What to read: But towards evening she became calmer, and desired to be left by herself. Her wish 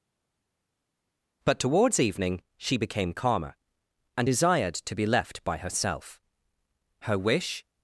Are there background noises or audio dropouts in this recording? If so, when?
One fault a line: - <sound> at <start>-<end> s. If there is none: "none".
none